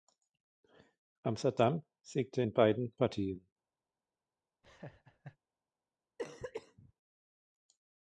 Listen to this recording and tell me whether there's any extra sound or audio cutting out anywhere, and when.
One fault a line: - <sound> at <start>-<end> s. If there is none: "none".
- laugh at 4.6-5.4 s
- cough at 6.2-6.9 s